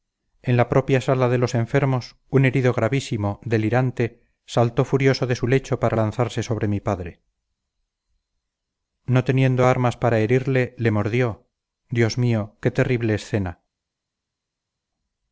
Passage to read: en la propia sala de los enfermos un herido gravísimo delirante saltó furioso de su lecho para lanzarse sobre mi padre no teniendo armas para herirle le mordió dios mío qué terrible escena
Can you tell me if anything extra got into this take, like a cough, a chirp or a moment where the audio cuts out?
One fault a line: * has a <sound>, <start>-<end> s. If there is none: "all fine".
all fine